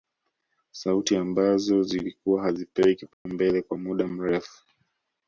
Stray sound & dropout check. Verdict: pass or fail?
fail